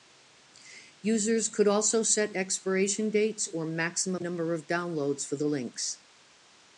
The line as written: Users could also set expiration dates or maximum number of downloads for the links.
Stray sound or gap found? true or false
false